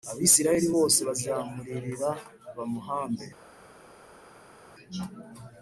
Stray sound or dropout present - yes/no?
no